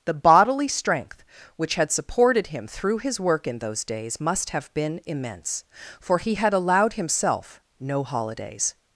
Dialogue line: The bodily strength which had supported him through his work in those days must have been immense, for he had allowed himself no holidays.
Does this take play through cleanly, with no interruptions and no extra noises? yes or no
yes